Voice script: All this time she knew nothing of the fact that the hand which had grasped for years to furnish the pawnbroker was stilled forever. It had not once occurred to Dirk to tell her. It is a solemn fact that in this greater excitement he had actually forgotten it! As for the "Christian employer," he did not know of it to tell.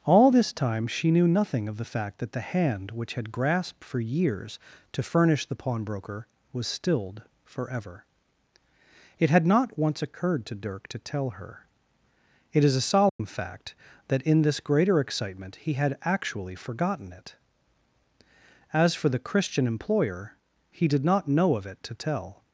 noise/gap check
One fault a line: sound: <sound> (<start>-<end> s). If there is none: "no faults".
sound: dropout (13.1-13.2 s)